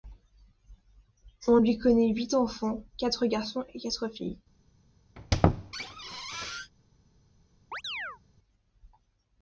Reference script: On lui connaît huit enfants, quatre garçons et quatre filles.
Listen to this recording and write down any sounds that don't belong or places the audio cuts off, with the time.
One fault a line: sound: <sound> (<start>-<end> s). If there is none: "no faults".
sound: squeak (5.2-6.7 s)
sound: chirp (7.7-8.2 s)